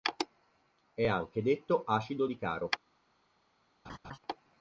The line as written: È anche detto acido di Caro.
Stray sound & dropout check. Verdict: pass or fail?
fail